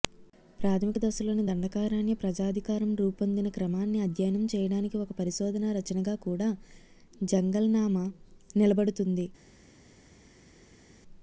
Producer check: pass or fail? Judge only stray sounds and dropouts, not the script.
pass